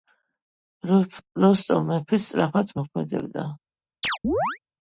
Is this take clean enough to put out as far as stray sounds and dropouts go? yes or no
no